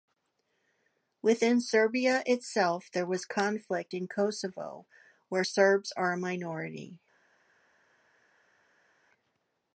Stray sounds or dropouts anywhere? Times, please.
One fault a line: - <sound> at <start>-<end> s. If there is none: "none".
none